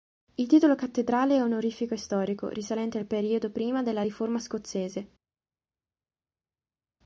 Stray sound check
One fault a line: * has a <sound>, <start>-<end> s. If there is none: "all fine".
all fine